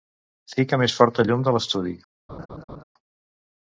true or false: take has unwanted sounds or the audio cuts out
true